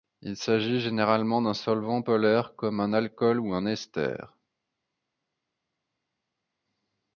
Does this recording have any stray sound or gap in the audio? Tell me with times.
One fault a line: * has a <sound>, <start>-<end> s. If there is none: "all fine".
all fine